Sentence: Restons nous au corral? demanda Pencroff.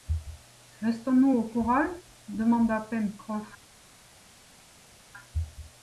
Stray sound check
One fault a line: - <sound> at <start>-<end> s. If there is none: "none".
none